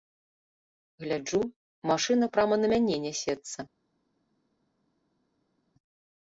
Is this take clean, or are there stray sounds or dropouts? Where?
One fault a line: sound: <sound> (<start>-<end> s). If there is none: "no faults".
no faults